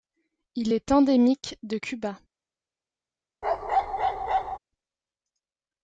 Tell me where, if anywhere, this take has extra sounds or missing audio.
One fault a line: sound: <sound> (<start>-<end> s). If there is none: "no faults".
sound: bark (3.4-4.6 s)